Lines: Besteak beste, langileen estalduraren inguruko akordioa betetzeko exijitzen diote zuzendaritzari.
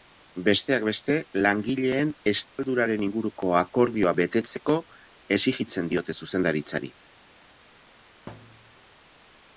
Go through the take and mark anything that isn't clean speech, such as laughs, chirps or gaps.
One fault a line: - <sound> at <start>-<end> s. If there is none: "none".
- dropout at 2.5-2.6 s
- thud at 8.3-8.8 s